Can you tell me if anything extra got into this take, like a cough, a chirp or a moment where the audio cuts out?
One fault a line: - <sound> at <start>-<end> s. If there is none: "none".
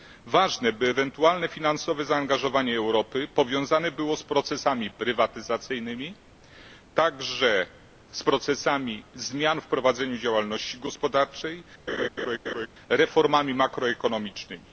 - laugh at 11.9-12.7 s